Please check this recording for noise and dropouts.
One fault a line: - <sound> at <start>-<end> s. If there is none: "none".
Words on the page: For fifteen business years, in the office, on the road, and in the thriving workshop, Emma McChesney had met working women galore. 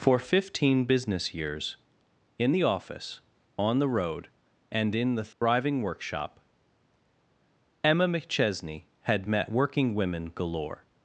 - dropout at 5.3-5.4 s